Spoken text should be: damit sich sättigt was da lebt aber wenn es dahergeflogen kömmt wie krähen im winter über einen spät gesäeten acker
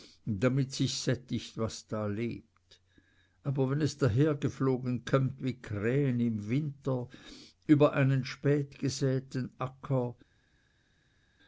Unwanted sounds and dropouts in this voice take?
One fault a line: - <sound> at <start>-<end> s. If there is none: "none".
none